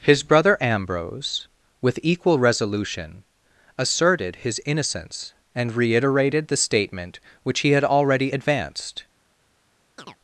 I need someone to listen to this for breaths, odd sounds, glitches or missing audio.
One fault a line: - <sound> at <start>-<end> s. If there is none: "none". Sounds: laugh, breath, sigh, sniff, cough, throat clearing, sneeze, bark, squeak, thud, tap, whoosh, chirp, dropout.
- chirp at 10.0-10.2 s